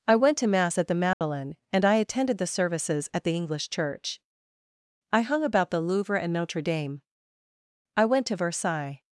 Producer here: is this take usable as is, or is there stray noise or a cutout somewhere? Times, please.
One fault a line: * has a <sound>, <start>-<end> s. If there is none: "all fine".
* has a dropout, 1.1-1.2 s